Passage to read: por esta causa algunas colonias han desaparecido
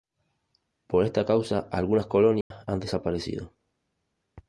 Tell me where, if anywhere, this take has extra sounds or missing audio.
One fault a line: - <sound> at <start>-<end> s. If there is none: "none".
- dropout at 2.4-2.5 s